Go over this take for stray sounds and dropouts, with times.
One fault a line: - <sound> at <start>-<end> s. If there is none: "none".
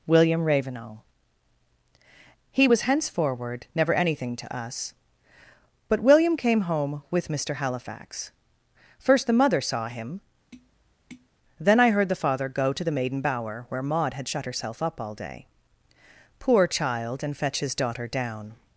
- tap at 10.5-11.3 s